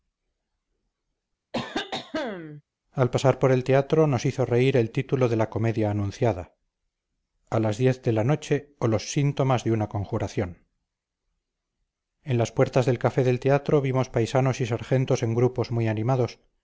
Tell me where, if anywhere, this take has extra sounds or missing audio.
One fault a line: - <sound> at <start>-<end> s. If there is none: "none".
- cough at 1.5-2.6 s